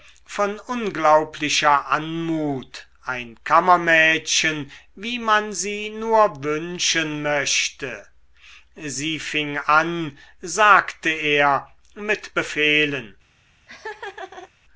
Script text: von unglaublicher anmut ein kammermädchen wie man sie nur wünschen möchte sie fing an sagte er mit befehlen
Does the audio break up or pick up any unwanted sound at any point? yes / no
yes